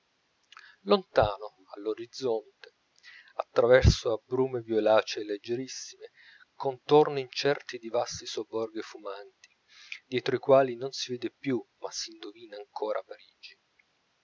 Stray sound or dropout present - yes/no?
no